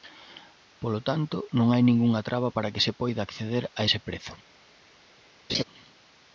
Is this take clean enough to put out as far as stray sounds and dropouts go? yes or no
no